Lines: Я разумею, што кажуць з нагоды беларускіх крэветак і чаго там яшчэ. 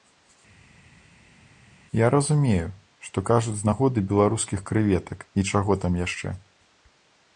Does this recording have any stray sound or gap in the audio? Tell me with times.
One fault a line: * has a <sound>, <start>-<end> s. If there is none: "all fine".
all fine